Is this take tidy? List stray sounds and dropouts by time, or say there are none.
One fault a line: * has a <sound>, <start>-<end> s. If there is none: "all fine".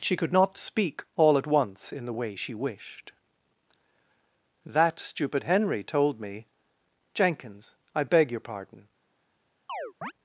* has a chirp, 9.7-10.1 s